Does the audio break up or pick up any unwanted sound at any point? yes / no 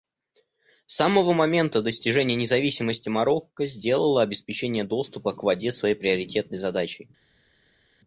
no